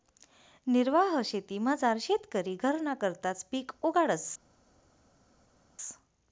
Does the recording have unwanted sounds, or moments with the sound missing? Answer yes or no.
no